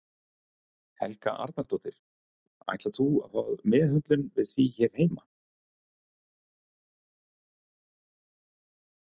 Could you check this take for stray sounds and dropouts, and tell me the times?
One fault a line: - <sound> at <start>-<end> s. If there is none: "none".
none